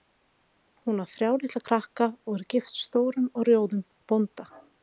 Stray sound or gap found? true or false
false